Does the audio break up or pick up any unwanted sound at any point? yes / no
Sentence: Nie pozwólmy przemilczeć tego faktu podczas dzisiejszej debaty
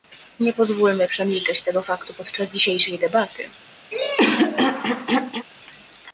yes